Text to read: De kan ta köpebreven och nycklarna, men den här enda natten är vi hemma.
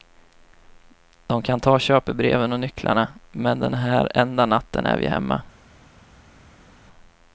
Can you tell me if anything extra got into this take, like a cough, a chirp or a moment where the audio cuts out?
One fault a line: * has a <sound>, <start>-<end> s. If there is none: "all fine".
all fine